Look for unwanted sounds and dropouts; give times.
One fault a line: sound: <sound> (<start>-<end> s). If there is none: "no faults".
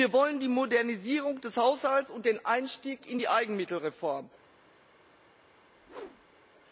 sound: whoosh (5.6-6.5 s)